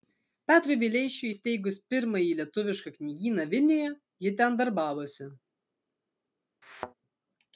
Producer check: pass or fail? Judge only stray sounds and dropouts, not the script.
fail